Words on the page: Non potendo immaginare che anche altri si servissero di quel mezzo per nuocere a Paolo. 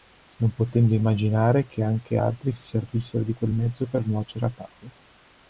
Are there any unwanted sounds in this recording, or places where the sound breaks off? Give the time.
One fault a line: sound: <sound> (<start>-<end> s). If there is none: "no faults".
no faults